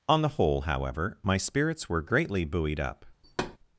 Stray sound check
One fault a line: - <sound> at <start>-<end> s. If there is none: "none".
- thud at 3.2-3.6 s